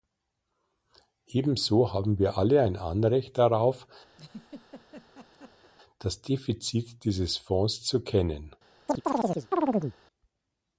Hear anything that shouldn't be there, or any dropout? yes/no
yes